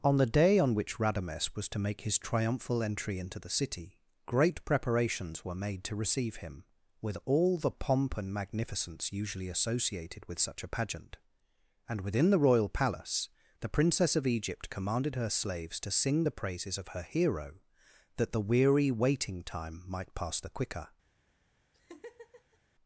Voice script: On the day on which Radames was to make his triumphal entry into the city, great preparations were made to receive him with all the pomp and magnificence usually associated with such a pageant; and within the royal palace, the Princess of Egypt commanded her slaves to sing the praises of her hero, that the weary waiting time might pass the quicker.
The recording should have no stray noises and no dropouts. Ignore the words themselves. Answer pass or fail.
fail